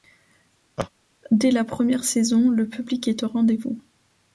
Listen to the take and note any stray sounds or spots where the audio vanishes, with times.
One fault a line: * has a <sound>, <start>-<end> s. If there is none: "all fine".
* has a laugh, 0.8-0.9 s